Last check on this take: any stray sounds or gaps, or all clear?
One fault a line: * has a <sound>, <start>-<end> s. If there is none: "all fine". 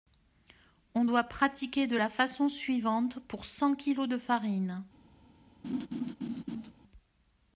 * has a laugh, 5.6-6.7 s